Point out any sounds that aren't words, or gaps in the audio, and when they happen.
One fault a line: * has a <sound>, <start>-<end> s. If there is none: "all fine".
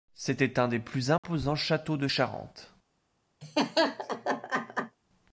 * has a dropout, 1.2-1.2 s
* has a laugh, 3.4-5.0 s